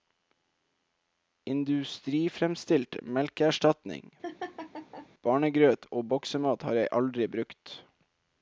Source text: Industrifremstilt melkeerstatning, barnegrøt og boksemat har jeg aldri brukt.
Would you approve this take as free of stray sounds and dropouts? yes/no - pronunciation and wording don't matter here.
no